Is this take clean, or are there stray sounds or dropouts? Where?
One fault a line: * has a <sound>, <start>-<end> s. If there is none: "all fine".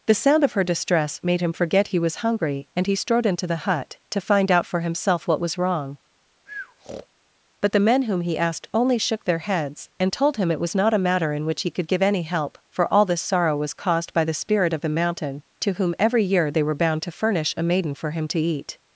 * has a breath, 6.5-7.1 s